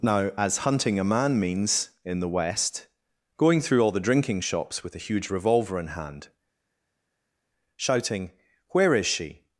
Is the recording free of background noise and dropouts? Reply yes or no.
yes